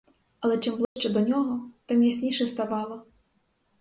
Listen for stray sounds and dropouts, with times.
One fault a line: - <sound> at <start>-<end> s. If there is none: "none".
- dropout at 0.8-1.0 s